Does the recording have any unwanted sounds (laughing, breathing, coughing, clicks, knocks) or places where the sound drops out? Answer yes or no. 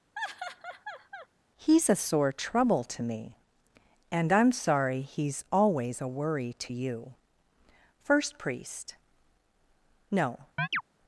yes